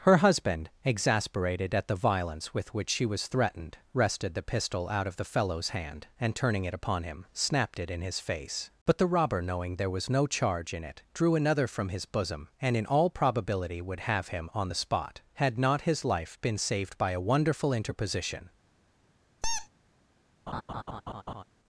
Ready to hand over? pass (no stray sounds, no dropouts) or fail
fail